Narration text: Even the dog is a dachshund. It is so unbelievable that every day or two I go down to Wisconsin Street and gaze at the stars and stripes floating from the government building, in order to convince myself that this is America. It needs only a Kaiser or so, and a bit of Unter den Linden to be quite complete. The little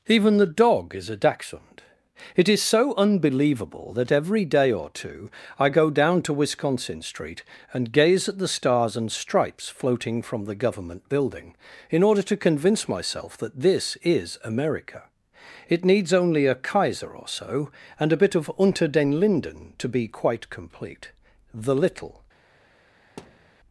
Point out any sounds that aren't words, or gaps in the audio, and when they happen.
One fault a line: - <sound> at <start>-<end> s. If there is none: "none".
- thud at 23.2-23.5 s